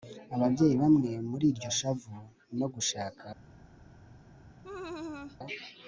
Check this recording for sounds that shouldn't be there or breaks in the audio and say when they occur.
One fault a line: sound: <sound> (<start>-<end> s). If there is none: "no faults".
sound: laugh (4.6-5.4 s)